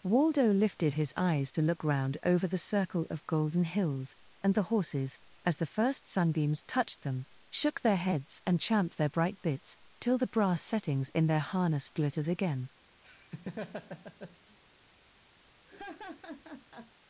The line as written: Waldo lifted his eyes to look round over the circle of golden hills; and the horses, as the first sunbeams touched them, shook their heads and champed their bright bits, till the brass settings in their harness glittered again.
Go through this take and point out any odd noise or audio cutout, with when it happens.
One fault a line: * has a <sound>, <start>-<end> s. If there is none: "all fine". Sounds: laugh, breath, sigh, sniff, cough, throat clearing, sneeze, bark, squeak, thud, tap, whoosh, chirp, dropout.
* has a laugh, 13.0-14.6 s
* has a laugh, 15.6-16.9 s